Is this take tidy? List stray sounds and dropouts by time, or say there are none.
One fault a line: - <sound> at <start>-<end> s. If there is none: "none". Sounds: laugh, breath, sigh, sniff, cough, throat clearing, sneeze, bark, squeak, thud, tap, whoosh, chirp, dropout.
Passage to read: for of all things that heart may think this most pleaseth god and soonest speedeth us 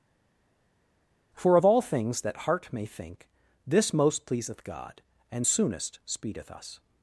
none